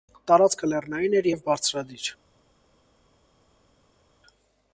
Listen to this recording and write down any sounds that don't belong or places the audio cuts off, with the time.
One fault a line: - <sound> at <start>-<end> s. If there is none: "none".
none